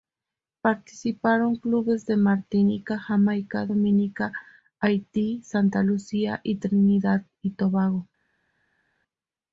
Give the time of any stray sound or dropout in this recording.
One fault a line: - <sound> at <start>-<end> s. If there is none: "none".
none